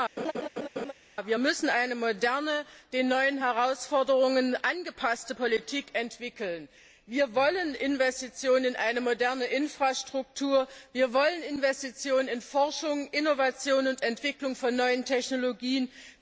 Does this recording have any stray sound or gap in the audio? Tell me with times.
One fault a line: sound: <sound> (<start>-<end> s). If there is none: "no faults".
sound: laugh (0.2-0.9 s)